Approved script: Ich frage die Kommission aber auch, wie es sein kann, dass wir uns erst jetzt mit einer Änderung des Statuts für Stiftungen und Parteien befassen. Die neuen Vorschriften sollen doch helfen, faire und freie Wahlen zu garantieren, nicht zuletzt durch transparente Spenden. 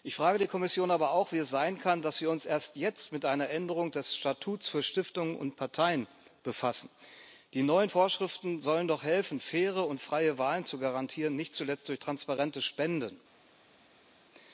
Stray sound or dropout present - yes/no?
no